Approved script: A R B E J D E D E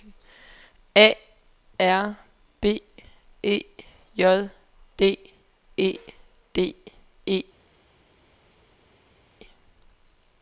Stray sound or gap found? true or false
false